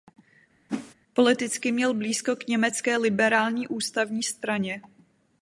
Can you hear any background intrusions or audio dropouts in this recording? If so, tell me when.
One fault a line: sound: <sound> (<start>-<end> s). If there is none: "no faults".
sound: whoosh (0.7-0.9 s)